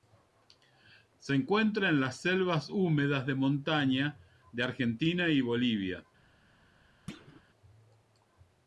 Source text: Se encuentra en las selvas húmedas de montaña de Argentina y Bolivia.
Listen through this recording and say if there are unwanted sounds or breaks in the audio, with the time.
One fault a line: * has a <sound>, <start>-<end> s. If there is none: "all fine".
* has a thud, 7.1-7.4 s